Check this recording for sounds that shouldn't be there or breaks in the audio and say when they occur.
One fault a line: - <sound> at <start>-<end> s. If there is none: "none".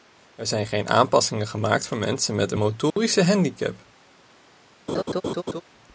- dropout at 2.9-3.0 s
- laugh at 4.9-5.6 s